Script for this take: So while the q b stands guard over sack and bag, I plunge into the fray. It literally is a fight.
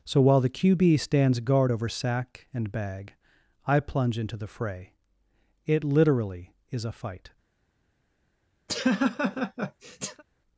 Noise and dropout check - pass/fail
fail